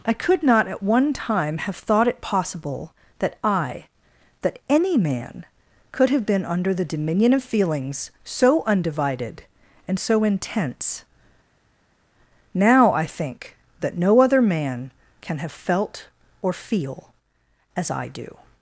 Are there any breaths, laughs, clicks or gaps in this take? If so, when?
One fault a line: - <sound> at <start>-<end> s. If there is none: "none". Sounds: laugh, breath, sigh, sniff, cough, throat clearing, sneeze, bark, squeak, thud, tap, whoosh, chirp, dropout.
none